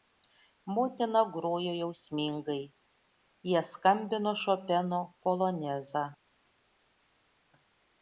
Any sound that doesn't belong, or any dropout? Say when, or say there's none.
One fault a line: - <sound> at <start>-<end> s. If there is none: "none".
none